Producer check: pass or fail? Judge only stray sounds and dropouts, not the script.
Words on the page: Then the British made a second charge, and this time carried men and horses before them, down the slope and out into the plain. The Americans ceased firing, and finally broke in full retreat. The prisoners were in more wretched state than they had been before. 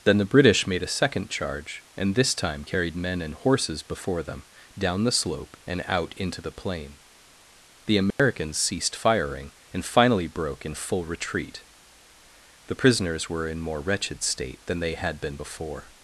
fail